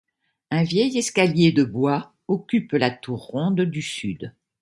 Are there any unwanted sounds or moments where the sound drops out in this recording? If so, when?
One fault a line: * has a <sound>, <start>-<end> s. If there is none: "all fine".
all fine